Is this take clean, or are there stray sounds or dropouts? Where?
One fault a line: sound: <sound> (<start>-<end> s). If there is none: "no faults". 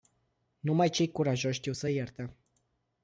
no faults